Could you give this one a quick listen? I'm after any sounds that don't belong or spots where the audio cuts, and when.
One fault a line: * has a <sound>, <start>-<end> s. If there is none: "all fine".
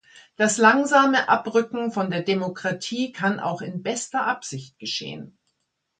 all fine